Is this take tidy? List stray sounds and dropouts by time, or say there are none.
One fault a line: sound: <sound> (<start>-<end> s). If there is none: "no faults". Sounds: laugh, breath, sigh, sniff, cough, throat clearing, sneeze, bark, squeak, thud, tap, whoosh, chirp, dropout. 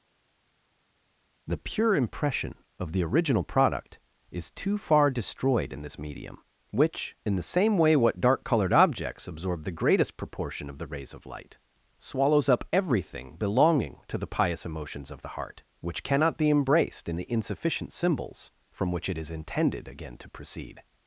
no faults